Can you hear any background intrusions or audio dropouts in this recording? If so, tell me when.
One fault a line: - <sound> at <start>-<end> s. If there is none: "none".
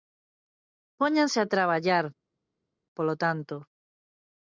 none